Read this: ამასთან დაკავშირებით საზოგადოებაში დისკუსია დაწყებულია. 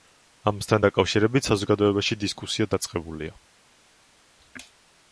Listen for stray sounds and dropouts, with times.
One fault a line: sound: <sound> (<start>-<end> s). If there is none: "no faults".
no faults